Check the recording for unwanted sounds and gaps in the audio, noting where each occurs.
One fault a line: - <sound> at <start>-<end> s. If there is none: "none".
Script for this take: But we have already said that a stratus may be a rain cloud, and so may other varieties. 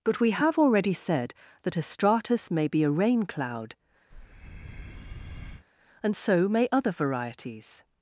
- breath at 4.1-5.7 s